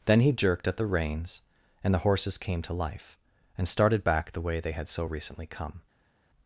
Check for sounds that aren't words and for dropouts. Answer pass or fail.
pass